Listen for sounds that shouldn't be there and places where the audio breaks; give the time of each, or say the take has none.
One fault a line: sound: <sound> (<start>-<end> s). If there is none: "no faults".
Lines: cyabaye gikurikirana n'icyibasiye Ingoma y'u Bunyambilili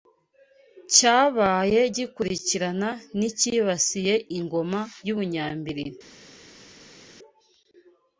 no faults